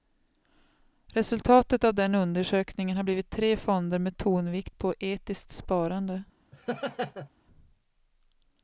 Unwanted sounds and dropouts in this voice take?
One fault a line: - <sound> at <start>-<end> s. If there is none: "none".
- laugh at 6.5-7.3 s